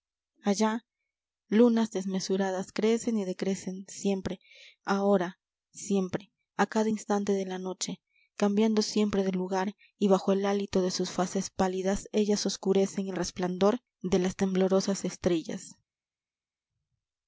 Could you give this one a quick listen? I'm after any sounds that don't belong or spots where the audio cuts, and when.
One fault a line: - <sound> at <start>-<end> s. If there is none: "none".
none